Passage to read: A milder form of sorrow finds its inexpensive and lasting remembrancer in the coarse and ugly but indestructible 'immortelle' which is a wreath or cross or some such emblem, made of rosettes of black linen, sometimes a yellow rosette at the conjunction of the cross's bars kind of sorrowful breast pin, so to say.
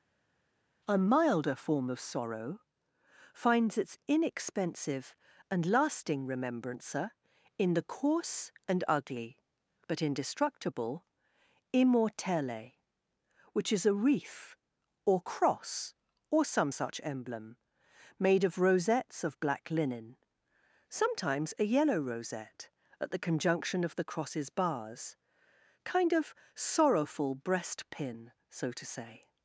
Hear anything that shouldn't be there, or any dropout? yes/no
no